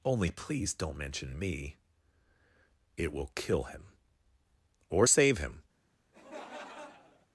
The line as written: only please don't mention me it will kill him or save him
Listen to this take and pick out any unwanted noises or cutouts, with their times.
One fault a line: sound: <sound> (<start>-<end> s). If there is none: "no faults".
sound: laugh (6.1-7.3 s)